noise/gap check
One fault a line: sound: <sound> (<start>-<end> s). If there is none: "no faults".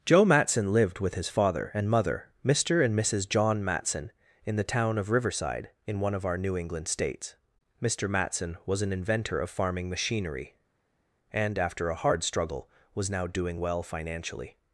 no faults